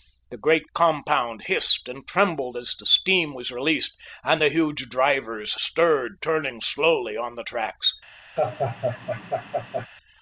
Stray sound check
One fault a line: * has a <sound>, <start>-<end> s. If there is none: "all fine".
* has a laugh, 8.4-9.9 s